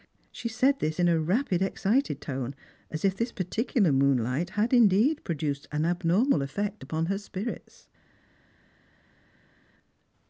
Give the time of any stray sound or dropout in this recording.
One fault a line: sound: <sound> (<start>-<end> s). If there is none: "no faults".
no faults